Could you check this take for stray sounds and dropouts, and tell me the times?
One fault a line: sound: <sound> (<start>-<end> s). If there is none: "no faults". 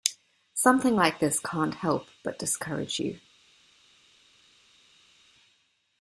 no faults